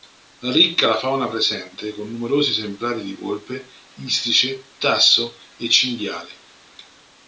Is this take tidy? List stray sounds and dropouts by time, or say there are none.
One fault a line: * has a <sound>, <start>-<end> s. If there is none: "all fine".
all fine